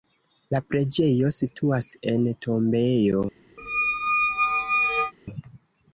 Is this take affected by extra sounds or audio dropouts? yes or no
yes